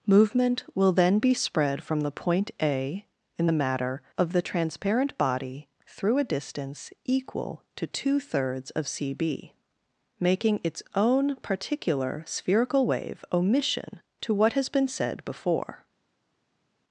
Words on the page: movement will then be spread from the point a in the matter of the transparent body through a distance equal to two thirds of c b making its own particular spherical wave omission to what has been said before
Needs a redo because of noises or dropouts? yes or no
no